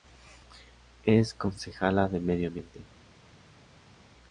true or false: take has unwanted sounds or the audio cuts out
false